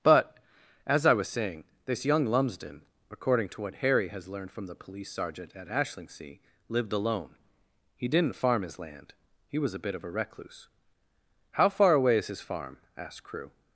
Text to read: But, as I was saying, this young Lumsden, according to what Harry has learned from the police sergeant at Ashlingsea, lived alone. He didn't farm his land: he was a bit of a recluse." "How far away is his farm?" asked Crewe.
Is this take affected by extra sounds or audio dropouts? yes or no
no